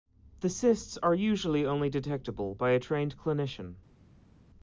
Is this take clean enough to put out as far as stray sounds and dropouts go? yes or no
yes